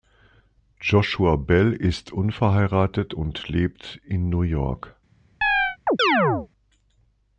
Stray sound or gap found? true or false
true